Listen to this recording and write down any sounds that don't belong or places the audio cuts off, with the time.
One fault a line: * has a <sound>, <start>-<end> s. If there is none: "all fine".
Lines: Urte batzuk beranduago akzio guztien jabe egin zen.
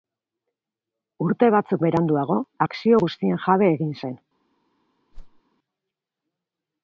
* has a whoosh, 5.1-5.4 s